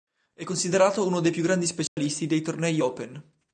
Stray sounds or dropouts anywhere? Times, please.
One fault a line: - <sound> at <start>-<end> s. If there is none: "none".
- dropout at 1.9-2.0 s